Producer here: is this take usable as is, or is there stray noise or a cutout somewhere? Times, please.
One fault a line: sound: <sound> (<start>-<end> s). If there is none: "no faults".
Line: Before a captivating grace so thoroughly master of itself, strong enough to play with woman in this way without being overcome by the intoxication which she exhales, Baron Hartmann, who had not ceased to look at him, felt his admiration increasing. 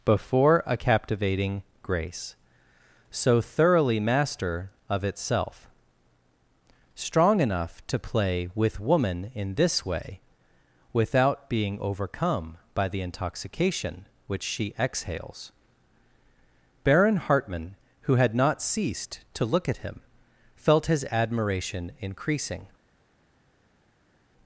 no faults